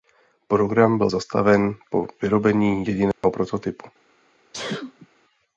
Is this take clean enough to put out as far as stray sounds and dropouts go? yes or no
no